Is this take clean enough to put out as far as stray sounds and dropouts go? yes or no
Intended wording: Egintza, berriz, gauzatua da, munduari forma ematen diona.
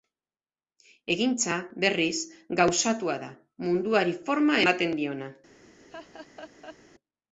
no